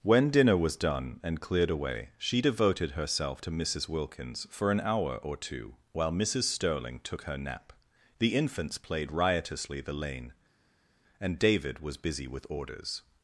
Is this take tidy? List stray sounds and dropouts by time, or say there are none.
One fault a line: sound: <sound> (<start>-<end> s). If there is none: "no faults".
no faults